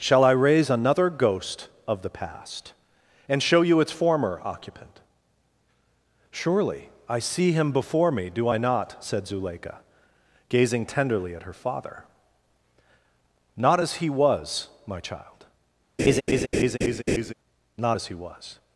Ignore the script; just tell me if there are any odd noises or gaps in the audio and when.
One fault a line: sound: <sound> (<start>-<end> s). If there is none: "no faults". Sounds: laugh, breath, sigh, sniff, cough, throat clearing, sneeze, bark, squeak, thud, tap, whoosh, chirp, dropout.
sound: laugh (16.0-17.3 s)